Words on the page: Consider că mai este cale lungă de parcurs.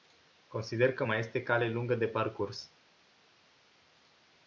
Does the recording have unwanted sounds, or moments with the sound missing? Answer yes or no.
no